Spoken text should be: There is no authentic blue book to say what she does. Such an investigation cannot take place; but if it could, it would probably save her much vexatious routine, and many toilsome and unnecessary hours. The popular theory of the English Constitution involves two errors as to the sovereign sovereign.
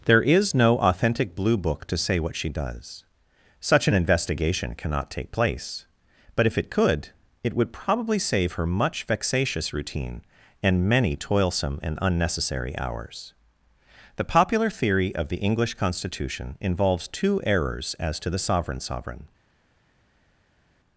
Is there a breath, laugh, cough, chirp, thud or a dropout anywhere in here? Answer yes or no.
no